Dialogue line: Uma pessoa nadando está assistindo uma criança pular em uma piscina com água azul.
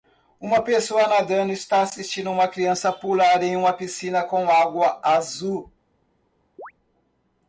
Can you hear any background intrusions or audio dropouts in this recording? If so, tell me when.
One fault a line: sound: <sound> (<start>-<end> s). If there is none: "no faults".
sound: chirp (6.6-6.7 s)